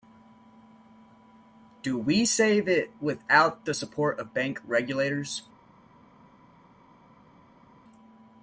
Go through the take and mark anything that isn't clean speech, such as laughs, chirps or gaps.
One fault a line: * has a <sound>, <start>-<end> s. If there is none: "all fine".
all fine